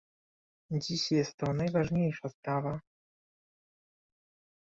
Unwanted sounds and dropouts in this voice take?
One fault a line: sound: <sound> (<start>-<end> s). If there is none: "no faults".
no faults